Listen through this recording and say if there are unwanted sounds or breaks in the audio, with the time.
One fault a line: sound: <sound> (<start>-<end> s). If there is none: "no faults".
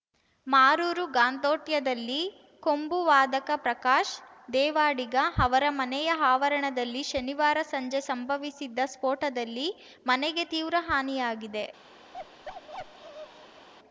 sound: bark (12.1-13.7 s)